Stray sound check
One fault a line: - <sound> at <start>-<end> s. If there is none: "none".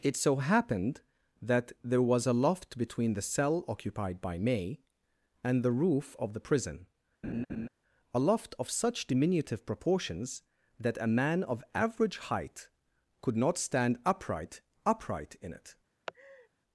- laugh at 7.2-7.7 s
- laugh at 16.1-16.5 s